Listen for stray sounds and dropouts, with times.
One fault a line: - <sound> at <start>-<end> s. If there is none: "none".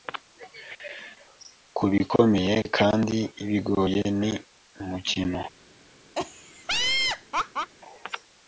- laugh at 6.2-7.7 s